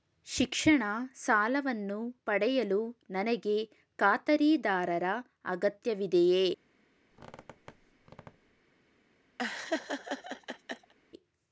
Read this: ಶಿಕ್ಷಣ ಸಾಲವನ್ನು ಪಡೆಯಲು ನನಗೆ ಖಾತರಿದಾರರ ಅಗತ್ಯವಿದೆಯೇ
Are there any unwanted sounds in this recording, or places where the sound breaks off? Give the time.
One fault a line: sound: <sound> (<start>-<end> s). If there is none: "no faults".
sound: squeak (7.1-8.6 s)
sound: laugh (9.4-10.9 s)